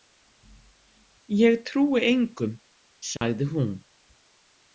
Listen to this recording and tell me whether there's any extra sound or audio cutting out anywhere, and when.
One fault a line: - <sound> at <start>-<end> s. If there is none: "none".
- dropout at 3.2-3.2 s